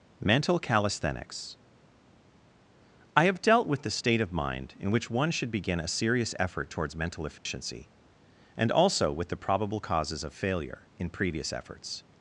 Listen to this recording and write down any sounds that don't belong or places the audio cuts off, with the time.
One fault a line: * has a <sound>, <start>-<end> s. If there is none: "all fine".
* has a dropout, 7.4-7.5 s